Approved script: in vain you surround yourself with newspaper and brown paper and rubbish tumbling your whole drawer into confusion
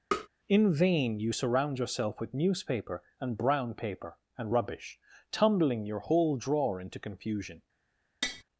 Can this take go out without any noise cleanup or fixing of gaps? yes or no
no